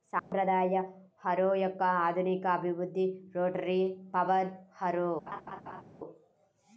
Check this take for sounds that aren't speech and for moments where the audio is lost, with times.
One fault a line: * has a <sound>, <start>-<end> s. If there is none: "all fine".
* has a dropout, 0.2-0.3 s
* has a laugh, 5.3-5.8 s